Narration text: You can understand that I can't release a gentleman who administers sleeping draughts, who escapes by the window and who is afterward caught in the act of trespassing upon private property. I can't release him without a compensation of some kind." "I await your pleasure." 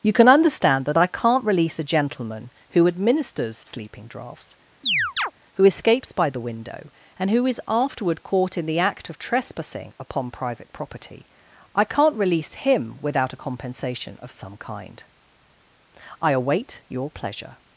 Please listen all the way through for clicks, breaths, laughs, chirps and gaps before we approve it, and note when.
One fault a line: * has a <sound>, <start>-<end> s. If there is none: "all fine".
* has a chirp, 4.8-5.3 s